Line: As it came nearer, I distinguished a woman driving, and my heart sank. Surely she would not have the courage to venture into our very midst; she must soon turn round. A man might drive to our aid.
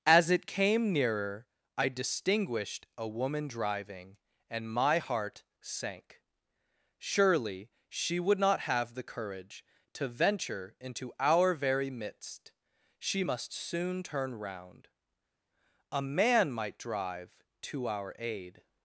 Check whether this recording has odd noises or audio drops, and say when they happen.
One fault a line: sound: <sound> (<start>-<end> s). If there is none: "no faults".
no faults